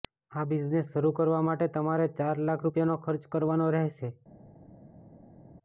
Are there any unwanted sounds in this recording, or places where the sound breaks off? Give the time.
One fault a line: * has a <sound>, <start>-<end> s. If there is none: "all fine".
all fine